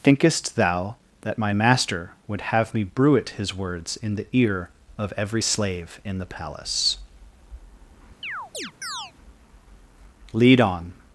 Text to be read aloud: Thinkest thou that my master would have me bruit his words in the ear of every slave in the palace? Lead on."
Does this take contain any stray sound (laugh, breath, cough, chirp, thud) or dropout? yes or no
yes